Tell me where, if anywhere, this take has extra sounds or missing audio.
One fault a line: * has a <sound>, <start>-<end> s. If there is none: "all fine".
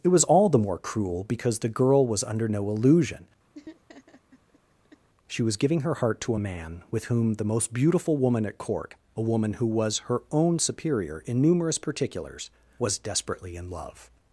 * has a laugh, 3.5-5.1 s